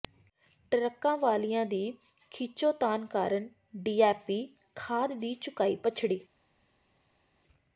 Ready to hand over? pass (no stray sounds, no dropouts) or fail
pass